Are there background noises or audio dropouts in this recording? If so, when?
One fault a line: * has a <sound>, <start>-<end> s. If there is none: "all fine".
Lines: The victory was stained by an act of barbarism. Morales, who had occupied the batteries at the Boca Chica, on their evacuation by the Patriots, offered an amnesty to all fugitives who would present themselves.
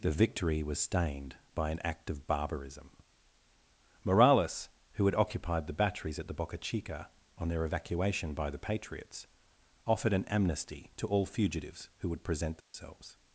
* has a dropout, 12.6-12.7 s